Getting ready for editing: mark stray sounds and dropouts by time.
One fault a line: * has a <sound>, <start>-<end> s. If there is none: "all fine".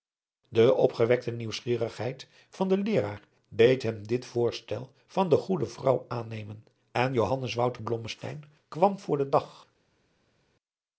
all fine